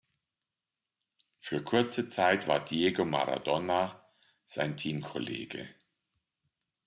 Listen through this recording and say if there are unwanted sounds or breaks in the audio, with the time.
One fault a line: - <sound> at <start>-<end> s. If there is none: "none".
none